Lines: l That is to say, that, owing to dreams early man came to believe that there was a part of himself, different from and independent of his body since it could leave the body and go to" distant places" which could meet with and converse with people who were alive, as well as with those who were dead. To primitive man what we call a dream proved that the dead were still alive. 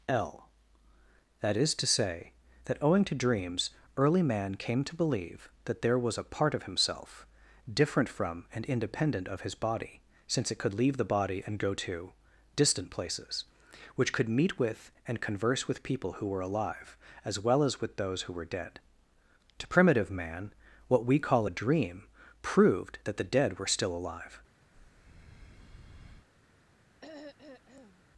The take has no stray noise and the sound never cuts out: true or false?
false